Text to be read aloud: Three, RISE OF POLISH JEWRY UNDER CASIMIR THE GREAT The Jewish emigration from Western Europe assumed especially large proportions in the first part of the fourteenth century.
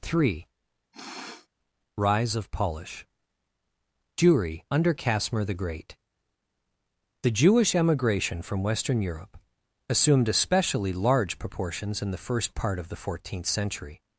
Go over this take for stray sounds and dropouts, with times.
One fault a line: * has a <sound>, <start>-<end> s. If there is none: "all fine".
* has a sniff, 0.9-1.5 s